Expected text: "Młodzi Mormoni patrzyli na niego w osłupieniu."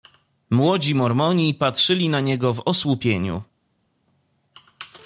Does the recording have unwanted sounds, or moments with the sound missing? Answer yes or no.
no